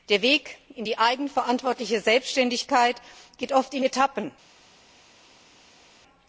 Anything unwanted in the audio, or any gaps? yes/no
no